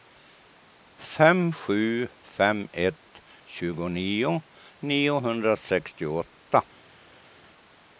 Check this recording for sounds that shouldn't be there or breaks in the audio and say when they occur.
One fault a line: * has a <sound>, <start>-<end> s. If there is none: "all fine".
all fine